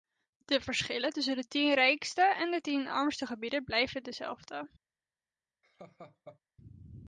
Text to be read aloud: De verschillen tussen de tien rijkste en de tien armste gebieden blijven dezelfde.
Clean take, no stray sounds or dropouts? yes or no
no